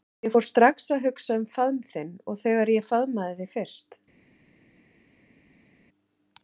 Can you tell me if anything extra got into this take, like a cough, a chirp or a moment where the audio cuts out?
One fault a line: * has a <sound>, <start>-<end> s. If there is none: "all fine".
all fine